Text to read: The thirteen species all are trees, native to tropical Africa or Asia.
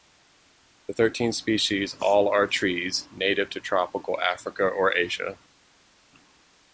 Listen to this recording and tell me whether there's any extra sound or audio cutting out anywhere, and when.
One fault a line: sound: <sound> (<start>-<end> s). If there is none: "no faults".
no faults